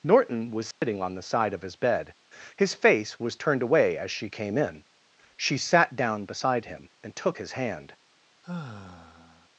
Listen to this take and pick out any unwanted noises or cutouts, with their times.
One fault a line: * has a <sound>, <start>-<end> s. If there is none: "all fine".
* has a dropout, 0.7-0.8 s
* has a sigh, 8.4-9.5 s